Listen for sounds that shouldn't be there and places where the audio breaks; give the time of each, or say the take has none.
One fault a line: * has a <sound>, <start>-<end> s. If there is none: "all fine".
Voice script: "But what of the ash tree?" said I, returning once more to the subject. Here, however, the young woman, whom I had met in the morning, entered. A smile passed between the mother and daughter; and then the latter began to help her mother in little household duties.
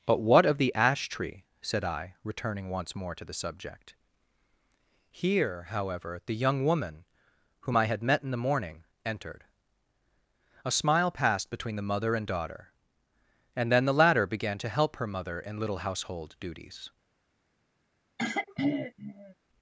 * has a throat clearing, 18.2-19.3 s